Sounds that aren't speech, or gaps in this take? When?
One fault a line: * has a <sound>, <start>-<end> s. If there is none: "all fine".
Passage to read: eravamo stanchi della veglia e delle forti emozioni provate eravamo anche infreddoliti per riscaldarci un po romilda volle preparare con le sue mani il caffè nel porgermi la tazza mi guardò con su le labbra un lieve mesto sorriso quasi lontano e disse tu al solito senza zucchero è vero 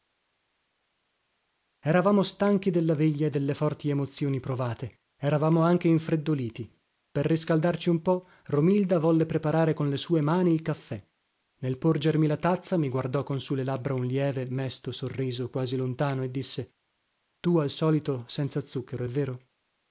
all fine